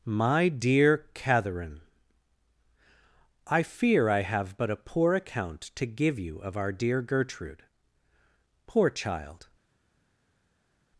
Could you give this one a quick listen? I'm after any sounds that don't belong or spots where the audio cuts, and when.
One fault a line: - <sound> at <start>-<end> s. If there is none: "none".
none